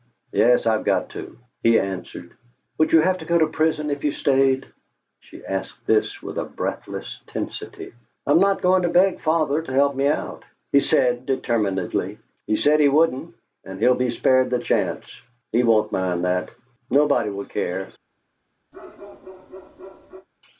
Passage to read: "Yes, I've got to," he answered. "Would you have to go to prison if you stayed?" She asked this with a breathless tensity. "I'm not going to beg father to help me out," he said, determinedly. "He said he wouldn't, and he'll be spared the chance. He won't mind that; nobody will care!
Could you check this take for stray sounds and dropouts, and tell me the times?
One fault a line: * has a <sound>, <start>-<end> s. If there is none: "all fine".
* has a bark, 18.7-20.3 s